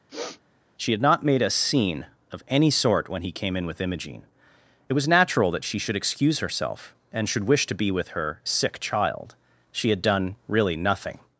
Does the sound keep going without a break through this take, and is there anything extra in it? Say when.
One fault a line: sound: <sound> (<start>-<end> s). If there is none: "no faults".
sound: sniff (0.1-0.4 s)